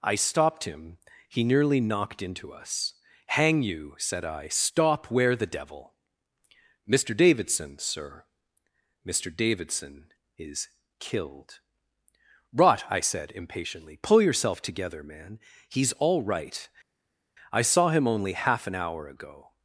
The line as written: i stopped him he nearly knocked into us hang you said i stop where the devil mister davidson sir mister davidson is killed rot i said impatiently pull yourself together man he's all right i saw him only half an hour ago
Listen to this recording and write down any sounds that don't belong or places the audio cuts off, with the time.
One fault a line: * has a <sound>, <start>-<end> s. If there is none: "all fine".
all fine